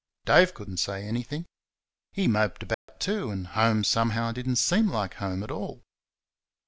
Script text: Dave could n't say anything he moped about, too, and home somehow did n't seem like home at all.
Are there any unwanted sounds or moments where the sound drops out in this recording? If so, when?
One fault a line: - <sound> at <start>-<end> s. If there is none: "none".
- dropout at 2.7-2.9 s